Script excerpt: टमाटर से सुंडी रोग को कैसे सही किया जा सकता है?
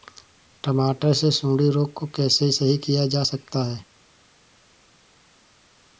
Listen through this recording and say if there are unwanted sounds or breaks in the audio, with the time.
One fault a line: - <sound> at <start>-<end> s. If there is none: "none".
none